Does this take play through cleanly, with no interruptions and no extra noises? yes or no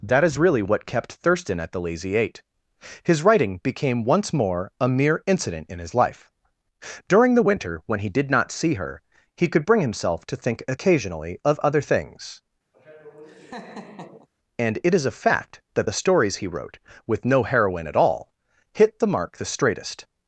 no